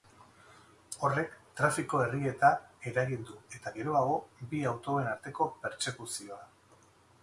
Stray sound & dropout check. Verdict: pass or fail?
pass